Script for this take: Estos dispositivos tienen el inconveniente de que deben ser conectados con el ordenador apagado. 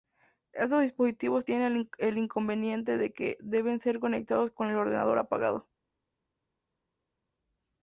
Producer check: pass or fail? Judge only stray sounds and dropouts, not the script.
pass